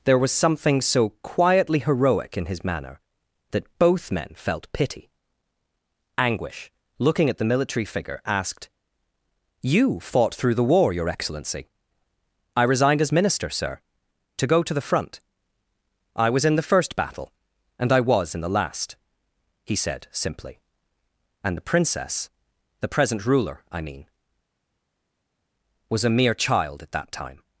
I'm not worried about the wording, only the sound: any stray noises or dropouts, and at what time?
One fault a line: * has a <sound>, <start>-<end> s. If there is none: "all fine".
all fine